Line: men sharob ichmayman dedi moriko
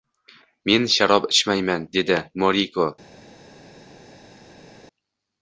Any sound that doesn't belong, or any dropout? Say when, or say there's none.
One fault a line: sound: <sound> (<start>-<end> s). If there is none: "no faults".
no faults